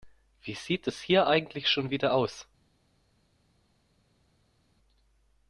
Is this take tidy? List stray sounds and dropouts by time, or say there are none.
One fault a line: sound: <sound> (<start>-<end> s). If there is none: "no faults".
no faults